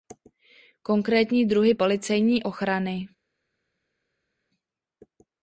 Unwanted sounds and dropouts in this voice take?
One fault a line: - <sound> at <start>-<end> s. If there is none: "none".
none